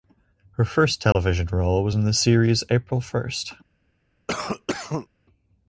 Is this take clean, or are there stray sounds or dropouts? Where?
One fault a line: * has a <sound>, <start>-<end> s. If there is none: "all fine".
* has a dropout, 1.1-1.2 s
* has a cough, 4.3-5.1 s